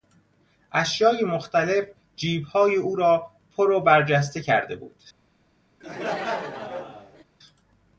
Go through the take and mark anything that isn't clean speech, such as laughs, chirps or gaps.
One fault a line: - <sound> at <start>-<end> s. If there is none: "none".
- laugh at 5.8-7.2 s